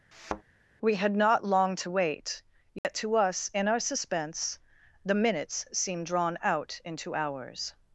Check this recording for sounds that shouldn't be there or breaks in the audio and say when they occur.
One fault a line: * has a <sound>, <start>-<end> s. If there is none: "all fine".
* has a thud, 0.1-0.4 s
* has a dropout, 2.8-2.8 s